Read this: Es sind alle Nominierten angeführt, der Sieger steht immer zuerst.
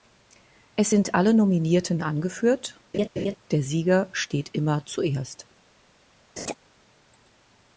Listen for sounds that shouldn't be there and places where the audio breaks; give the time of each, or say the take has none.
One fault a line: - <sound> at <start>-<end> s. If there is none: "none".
- laugh at 2.9-3.4 s
- laugh at 6.4-6.6 s